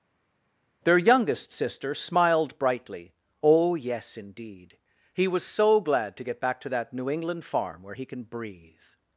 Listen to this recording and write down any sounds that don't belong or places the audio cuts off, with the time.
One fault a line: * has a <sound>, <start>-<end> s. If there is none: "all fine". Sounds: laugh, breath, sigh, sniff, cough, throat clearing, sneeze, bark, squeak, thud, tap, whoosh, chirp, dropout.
all fine